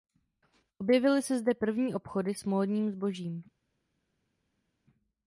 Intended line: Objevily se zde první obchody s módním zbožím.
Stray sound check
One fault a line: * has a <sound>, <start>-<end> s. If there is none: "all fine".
all fine